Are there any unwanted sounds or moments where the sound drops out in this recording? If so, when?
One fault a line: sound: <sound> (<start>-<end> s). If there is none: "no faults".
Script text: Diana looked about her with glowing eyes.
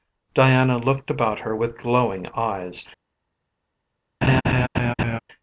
sound: laugh (4.2-5.2 s)